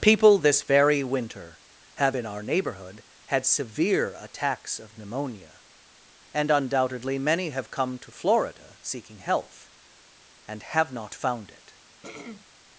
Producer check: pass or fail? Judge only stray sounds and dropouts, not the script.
fail